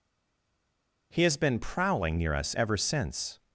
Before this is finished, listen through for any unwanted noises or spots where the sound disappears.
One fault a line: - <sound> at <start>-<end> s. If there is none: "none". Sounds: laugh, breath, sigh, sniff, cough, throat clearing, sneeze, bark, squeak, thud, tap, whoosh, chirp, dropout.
none